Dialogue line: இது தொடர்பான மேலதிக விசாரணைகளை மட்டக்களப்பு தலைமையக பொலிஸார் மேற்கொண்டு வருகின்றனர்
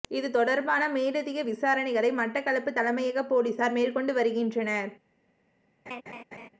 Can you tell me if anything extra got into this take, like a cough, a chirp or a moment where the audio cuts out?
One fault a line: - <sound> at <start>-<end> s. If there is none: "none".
- laugh at 5.9-6.5 s